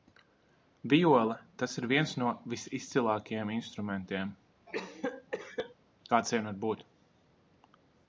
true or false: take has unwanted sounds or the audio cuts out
true